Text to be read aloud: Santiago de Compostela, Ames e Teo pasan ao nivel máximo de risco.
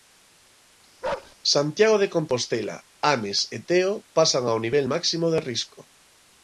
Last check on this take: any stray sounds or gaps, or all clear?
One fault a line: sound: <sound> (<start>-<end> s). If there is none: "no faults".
sound: bark (1.0-1.4 s)